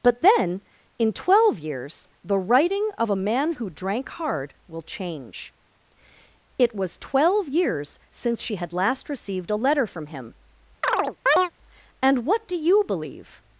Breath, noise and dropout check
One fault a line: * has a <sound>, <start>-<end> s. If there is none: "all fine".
* has a chirp, 10.8-11.5 s